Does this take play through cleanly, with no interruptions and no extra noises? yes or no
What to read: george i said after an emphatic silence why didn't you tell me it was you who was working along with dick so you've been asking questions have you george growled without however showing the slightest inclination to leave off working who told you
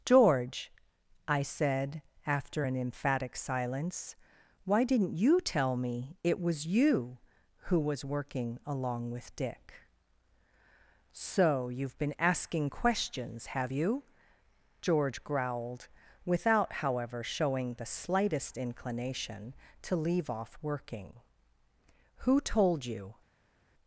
yes